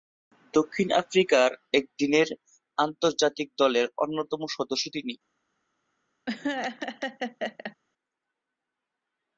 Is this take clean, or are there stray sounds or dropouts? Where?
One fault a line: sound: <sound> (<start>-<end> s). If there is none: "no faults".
sound: laugh (6.3-7.8 s)